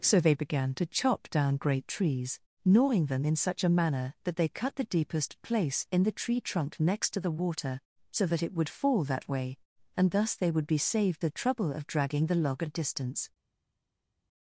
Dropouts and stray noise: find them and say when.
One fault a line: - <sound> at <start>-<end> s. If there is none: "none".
none